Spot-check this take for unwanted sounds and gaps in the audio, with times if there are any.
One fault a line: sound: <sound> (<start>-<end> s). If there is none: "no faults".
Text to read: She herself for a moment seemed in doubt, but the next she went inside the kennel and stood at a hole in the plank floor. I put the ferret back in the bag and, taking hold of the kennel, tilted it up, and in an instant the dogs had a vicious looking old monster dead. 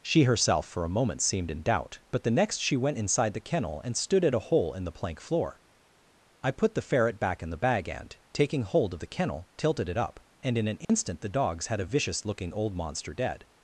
sound: dropout (10.8-10.9 s)